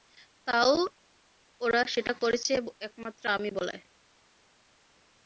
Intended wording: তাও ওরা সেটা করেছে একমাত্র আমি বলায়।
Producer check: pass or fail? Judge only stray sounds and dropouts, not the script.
pass